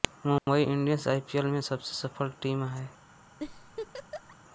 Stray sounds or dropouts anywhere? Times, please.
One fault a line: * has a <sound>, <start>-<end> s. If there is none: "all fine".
* has a dropout, 0.4-0.5 s
* has a laugh, 3.4-4.4 s